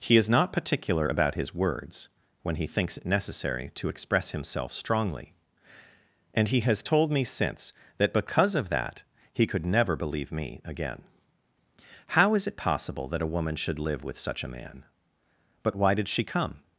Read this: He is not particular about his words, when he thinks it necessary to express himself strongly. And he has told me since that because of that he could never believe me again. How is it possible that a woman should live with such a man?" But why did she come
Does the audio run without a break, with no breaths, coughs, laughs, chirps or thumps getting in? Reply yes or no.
yes